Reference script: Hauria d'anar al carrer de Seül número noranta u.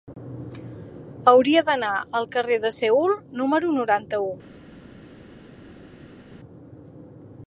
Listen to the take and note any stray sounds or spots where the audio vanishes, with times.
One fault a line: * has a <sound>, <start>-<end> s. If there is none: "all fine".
all fine